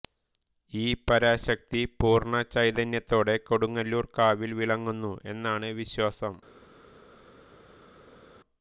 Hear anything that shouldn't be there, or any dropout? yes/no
no